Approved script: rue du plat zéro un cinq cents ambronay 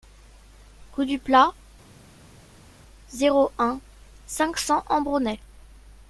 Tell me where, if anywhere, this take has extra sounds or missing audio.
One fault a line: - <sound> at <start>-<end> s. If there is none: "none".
none